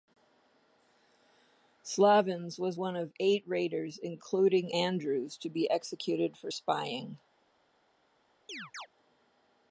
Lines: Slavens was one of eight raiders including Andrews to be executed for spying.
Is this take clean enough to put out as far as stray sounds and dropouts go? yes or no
no